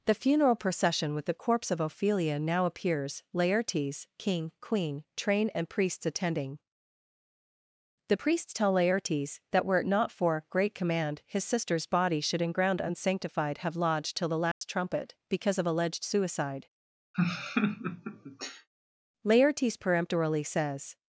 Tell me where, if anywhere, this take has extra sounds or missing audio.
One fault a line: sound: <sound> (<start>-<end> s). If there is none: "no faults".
sound: dropout (14.5-14.6 s)
sound: laugh (17.1-18.7 s)